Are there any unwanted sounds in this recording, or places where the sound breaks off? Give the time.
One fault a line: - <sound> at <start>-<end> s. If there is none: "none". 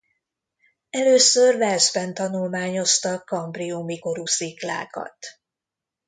none